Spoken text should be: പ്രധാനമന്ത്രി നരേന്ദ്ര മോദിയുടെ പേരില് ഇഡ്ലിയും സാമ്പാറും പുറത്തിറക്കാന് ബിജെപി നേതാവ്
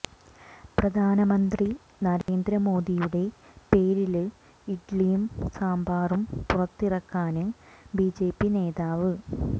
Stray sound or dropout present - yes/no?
yes